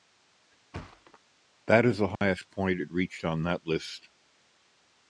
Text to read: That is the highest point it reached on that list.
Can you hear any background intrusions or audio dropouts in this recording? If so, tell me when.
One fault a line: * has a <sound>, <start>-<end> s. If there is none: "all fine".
* has a thud, 0.7-1.2 s
* has a dropout, 2.1-2.2 s